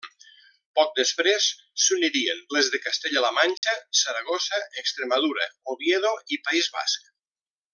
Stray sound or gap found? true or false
true